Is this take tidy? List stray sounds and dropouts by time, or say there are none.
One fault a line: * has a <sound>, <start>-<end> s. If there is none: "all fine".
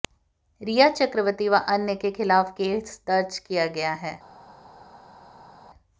all fine